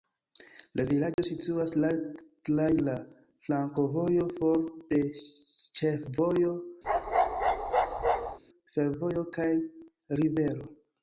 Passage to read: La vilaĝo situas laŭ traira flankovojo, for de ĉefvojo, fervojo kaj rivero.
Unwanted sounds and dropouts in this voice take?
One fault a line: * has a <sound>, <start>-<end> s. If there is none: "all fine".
* has a dropout, 1.1-1.2 s
* has a bark, 6.8-8.4 s